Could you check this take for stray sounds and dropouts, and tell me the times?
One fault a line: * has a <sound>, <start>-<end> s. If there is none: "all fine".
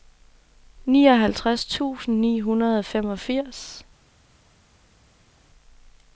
all fine